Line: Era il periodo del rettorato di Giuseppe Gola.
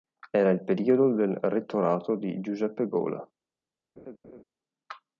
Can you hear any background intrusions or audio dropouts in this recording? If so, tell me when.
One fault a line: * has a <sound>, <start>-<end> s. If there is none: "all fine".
* has a laugh, 4.0-4.4 s